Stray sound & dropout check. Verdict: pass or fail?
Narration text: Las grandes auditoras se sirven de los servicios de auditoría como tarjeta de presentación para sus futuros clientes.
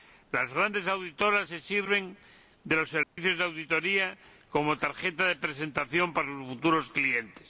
fail